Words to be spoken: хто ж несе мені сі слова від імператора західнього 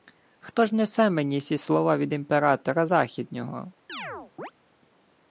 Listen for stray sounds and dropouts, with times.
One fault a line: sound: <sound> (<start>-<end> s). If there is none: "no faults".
sound: chirp (3.9-4.5 s)